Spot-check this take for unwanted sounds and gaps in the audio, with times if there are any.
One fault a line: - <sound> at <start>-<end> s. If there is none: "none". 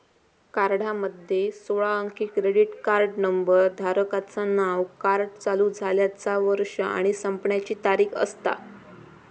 none